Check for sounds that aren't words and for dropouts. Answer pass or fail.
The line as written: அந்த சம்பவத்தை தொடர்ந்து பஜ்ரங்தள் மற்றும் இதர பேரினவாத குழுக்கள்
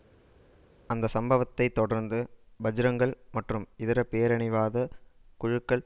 pass